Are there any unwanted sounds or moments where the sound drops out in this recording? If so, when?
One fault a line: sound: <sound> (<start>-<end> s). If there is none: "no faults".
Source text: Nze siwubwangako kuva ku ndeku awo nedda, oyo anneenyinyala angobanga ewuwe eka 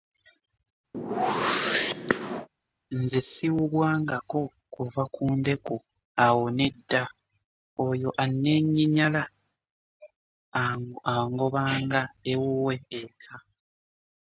sound: whoosh (0.9-2.5 s)